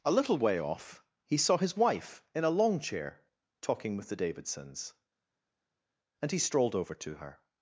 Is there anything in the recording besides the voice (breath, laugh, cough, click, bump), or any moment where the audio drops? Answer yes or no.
no